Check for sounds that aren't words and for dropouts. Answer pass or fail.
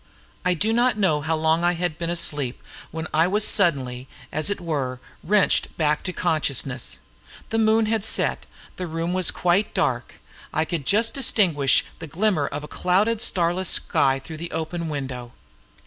pass